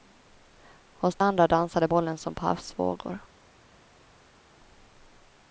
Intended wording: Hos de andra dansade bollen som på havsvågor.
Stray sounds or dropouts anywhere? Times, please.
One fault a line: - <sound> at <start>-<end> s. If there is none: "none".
none